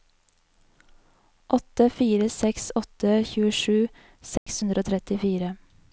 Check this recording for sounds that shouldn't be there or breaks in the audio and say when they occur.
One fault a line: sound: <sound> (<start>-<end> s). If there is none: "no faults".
sound: dropout (4.4-4.5 s)